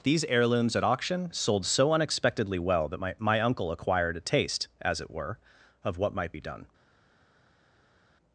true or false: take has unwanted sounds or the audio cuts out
false